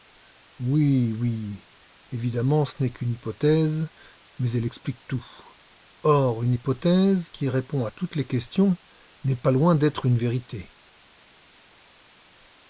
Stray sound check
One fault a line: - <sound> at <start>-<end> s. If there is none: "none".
none